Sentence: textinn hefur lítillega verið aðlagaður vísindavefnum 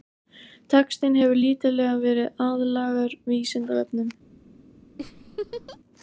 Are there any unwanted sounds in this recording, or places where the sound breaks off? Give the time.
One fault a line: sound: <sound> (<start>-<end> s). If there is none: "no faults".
sound: laugh (5.0-5.8 s)